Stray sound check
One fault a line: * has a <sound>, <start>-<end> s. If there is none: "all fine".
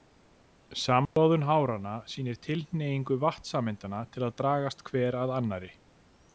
* has a dropout, 1.1-1.2 s